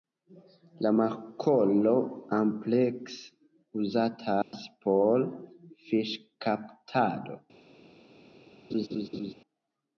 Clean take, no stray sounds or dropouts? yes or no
no